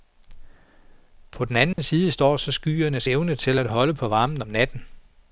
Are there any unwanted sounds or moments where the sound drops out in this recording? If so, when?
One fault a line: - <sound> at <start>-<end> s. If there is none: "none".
- dropout at 1.7-1.8 s